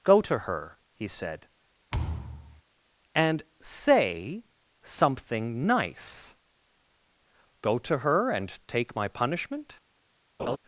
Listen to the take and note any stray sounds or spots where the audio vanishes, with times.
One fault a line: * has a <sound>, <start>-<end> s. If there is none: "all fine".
* has a thud, 1.9-2.6 s
* has a laugh, 10.4-10.6 s